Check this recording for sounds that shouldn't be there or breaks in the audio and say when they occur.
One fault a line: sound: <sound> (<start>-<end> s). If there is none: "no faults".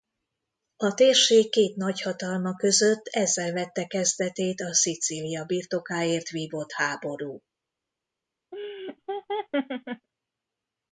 sound: laugh (8.5-10.1 s)